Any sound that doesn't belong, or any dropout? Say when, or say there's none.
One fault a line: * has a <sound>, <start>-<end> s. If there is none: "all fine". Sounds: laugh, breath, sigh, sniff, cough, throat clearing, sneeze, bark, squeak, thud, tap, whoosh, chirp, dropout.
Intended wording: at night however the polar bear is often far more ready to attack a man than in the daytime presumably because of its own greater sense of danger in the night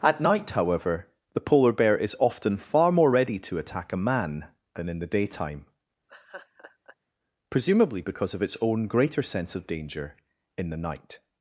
* has a laugh, 6.1-7.0 s